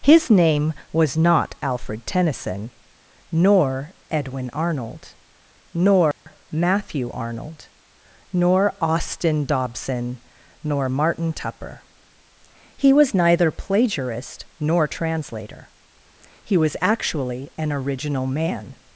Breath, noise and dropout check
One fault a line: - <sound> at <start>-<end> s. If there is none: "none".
- dropout at 6.1-6.3 s